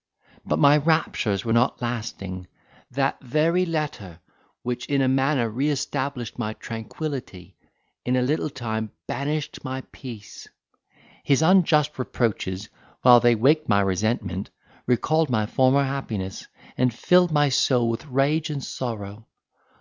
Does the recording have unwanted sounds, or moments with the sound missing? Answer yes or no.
no